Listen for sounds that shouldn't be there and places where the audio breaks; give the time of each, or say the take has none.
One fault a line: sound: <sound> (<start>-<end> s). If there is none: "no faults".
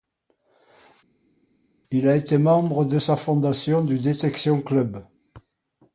no faults